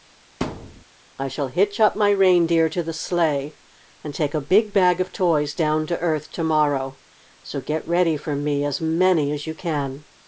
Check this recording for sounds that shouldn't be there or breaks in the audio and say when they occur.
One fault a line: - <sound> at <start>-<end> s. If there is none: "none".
- thud at 0.4-0.8 s